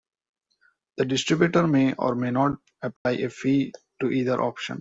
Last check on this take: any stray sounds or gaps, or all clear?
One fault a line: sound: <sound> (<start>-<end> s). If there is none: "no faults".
sound: dropout (3.0-3.1 s)